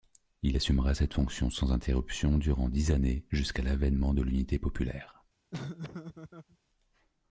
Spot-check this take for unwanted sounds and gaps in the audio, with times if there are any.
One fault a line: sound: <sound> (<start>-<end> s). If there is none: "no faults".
sound: laugh (5.5-6.6 s)